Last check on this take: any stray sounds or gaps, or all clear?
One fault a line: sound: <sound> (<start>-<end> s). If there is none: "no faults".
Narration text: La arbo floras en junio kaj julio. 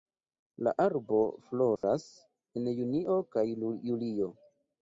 sound: dropout (1.8-1.8 s)